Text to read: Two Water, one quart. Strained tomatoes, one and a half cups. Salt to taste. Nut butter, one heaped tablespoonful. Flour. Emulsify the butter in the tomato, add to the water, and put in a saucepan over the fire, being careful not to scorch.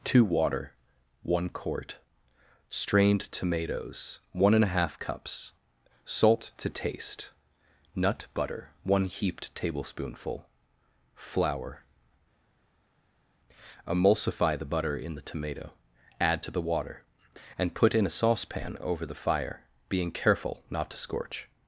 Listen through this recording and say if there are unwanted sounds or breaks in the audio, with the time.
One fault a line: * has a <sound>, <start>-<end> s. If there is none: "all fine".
all fine